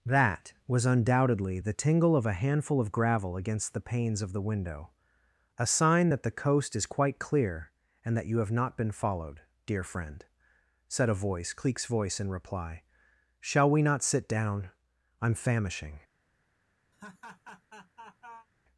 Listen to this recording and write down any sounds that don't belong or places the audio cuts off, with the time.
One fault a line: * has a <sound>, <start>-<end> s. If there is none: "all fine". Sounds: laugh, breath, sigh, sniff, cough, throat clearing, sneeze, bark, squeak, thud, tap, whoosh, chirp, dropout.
* has a laugh, 16.9-18.5 s